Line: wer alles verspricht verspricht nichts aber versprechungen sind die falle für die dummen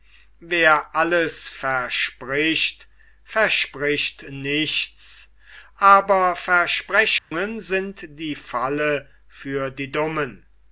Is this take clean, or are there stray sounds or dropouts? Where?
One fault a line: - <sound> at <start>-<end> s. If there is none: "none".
- dropout at 7.2-7.3 s